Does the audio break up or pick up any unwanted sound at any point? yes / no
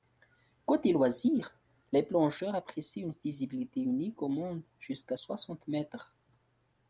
no